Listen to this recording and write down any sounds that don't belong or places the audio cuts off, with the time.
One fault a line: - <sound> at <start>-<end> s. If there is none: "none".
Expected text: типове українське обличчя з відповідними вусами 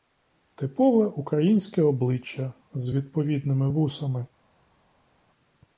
none